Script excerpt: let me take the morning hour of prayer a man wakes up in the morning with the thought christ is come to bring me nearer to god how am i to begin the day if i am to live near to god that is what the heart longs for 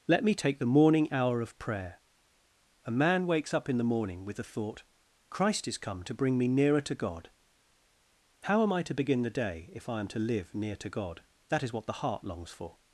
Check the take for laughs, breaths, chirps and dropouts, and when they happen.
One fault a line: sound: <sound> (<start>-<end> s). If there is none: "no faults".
no faults